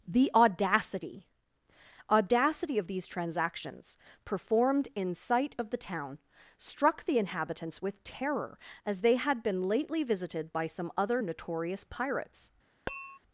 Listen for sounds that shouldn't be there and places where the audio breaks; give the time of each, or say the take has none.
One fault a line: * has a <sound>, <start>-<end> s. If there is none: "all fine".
* has a tap, 12.9-13.2 s